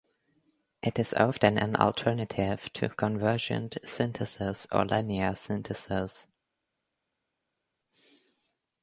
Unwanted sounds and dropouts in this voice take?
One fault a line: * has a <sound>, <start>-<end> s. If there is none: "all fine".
all fine